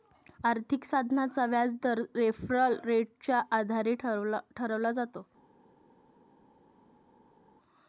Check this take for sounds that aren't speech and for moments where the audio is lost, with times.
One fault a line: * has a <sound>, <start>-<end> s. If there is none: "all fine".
all fine